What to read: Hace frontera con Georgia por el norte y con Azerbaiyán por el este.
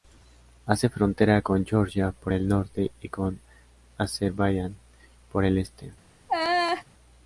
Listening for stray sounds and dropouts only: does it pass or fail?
fail